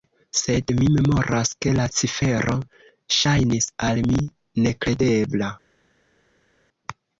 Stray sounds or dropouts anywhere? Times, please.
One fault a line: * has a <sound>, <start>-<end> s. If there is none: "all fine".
all fine